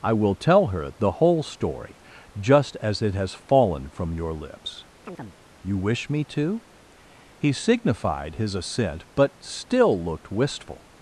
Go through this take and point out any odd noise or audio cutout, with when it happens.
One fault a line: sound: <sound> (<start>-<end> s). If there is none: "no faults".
sound: chirp (5.0-5.4 s)